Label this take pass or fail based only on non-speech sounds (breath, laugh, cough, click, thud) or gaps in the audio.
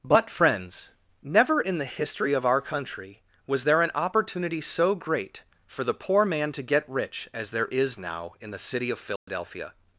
fail